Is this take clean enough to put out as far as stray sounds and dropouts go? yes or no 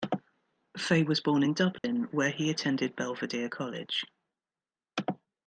no